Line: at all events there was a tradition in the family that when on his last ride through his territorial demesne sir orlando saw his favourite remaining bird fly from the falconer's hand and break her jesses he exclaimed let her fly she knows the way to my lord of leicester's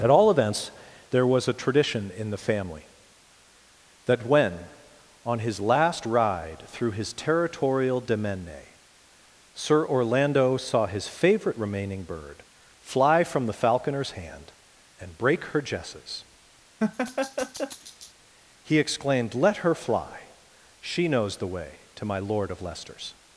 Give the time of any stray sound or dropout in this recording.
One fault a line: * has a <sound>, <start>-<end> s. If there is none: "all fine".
* has a laugh, 16.8-18.1 s